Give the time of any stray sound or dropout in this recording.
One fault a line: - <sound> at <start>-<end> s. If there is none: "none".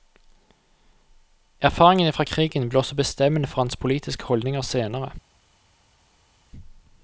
none